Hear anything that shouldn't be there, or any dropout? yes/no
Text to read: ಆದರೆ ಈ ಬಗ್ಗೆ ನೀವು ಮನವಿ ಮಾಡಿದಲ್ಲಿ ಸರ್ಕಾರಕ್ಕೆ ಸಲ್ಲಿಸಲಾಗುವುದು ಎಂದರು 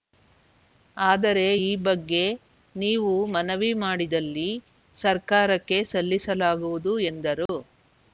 yes